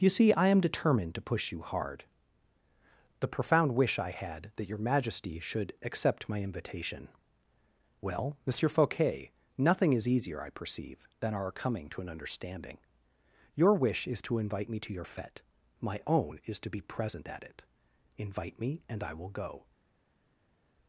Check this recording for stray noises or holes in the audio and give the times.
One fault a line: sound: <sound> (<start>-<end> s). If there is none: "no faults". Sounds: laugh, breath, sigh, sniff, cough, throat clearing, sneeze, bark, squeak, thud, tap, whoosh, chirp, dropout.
no faults